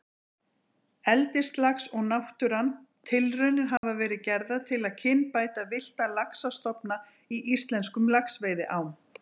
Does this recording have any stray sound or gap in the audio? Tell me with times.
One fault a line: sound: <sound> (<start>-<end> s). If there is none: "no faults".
sound: dropout (3.8-3.8 s)